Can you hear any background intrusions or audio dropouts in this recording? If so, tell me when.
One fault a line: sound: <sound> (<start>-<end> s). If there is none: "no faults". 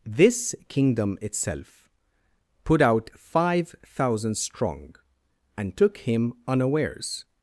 no faults